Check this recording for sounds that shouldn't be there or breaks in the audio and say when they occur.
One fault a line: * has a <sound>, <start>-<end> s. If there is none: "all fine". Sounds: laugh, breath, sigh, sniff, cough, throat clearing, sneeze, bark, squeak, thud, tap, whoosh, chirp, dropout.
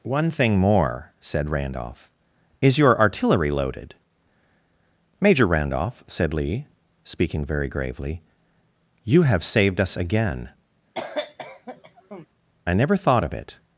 * has a cough, 10.9-12.3 s